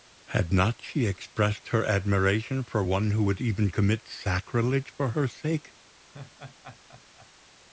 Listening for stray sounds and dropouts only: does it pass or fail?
fail